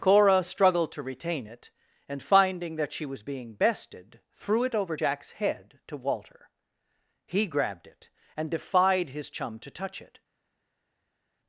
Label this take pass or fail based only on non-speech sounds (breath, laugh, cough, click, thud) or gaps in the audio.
pass